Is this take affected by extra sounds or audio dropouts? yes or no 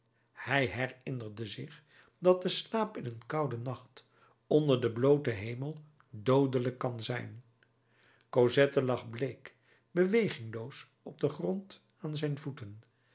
no